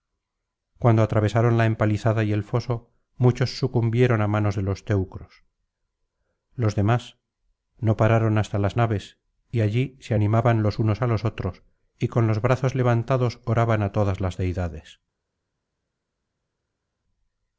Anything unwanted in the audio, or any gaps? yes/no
no